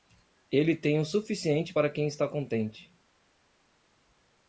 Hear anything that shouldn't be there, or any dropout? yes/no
no